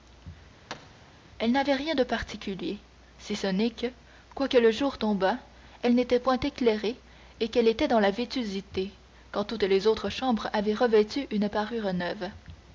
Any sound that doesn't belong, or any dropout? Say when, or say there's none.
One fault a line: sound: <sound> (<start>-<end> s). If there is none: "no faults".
sound: thud (0.7-1.2 s)